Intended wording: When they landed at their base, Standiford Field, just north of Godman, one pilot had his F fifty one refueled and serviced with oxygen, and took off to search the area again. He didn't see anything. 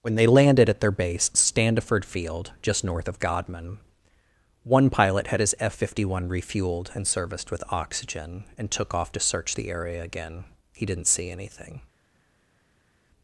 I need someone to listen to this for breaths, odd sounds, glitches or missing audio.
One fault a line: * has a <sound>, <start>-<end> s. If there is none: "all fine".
all fine